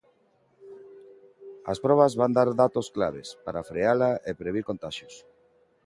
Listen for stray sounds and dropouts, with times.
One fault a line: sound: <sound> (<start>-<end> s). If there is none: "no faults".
no faults